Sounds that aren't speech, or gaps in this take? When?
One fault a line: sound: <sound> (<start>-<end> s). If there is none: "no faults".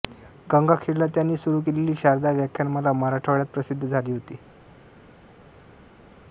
no faults